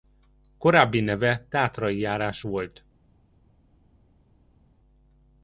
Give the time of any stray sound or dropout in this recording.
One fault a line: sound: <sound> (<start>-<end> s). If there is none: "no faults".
no faults